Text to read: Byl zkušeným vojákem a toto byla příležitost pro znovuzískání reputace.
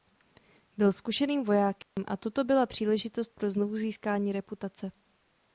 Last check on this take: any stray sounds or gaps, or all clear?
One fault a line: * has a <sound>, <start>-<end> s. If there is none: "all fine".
* has a dropout, 1.8-2.0 s